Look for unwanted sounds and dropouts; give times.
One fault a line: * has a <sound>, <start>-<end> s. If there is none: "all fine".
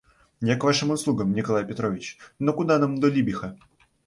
all fine